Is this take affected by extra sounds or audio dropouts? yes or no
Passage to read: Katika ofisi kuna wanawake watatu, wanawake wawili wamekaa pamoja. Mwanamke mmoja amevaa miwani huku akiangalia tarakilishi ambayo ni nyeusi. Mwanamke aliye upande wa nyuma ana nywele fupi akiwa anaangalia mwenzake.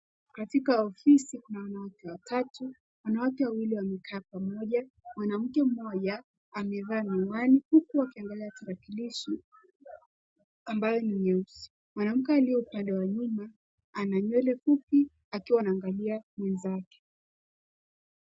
no